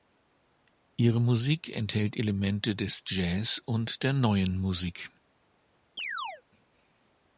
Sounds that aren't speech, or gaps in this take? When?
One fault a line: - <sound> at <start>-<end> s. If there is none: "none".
- chirp at 6.0-6.4 s